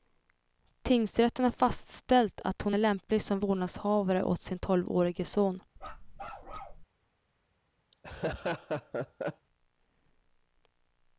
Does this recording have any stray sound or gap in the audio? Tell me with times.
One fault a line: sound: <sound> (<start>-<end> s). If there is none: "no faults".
sound: bark (5.8-6.8 s)
sound: laugh (7.9-9.5 s)